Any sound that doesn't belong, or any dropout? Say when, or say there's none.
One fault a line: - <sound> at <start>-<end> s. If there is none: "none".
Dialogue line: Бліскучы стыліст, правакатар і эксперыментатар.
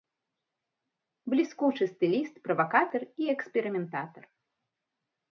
none